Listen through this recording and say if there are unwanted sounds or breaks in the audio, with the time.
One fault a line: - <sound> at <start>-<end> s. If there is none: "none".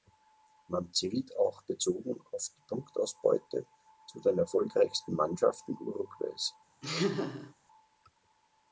- laugh at 6.8-7.5 s